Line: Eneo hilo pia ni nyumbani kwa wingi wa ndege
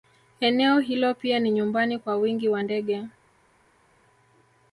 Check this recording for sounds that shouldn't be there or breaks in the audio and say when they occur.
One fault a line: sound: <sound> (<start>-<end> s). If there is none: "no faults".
no faults